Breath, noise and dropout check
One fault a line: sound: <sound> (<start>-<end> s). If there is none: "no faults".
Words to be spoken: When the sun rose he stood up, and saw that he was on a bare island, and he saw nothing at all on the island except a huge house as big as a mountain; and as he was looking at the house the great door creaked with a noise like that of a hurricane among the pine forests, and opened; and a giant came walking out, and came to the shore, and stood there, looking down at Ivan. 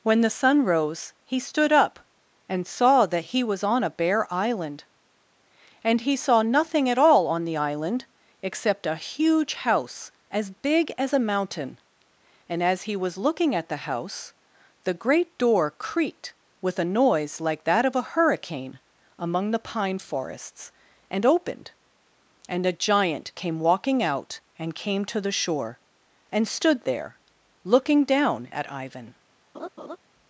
sound: laugh (29.5-30.0 s)